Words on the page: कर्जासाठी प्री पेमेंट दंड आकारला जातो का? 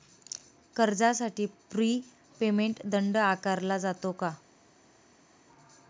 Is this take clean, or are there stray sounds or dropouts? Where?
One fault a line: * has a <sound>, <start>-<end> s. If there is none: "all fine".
all fine